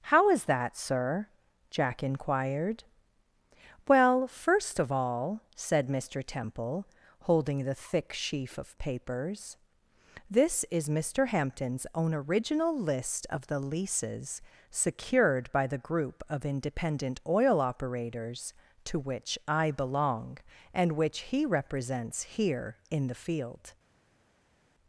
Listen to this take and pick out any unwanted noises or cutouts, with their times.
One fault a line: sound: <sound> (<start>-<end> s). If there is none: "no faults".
no faults